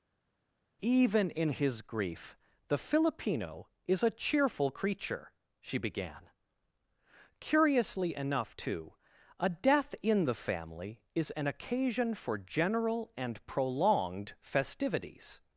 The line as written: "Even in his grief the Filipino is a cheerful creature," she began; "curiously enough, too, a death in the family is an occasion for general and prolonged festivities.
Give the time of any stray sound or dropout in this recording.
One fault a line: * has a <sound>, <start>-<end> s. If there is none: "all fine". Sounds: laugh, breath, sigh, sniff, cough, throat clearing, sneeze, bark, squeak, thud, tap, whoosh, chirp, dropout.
all fine